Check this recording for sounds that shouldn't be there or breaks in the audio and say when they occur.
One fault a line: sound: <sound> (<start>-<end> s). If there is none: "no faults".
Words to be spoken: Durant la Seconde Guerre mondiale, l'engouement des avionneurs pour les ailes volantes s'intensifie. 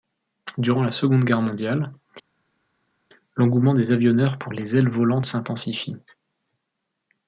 no faults